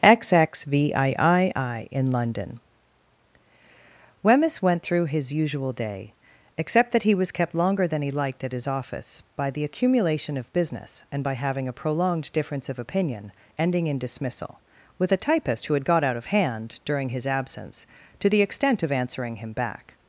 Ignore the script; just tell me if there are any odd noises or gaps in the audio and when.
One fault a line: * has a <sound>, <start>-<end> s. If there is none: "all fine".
all fine